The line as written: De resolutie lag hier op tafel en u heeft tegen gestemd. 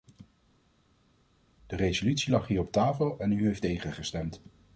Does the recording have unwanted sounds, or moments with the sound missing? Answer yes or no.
no